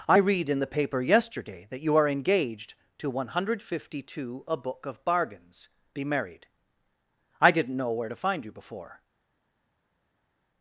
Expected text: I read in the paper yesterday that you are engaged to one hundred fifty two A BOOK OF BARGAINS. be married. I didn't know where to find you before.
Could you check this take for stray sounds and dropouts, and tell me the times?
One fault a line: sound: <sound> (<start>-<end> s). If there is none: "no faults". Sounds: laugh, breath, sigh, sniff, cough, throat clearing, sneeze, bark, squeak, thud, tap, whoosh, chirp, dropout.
no faults